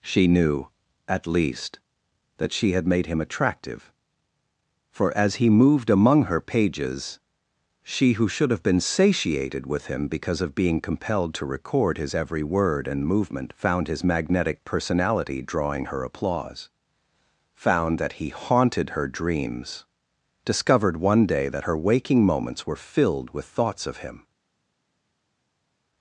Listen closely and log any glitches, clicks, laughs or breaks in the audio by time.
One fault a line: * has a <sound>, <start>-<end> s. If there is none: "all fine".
all fine